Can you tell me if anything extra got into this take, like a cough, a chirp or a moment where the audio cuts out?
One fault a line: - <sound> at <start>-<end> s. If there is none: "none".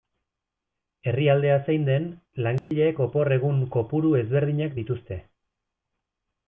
- dropout at 2.6-2.7 s